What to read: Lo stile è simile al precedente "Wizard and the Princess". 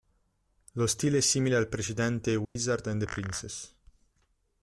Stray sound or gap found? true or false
true